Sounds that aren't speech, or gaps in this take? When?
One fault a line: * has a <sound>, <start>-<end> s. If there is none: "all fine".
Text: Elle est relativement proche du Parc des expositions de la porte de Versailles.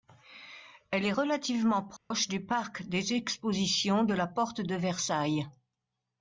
* has a dropout, 2.0-2.1 s